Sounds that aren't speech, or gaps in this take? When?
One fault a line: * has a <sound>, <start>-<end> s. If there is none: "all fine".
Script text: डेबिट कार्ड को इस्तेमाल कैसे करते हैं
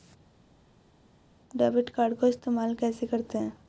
all fine